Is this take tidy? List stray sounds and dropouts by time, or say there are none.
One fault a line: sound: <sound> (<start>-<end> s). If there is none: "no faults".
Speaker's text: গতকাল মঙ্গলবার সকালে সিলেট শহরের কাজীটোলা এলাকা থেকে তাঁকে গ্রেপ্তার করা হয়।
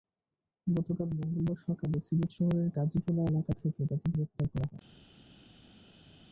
no faults